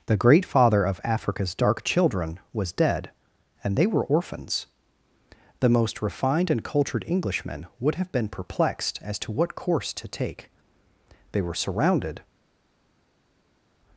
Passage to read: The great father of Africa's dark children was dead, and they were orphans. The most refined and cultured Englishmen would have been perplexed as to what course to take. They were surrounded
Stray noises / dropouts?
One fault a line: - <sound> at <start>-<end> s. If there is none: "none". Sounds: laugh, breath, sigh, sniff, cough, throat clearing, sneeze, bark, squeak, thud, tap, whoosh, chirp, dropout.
none